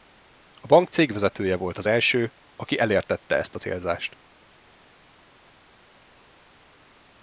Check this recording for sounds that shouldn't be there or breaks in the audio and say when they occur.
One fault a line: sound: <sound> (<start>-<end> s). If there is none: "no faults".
no faults